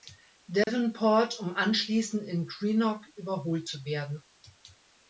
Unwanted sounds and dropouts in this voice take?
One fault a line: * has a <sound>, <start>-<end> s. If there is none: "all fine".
* has a dropout, 0.6-0.7 s